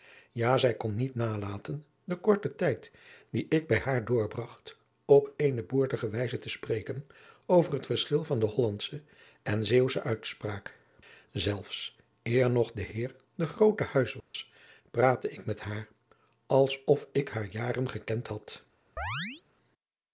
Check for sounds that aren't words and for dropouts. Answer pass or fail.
fail